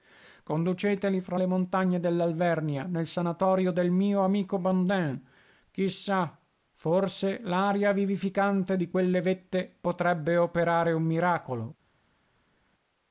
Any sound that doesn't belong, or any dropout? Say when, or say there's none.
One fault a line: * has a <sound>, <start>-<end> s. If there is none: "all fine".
all fine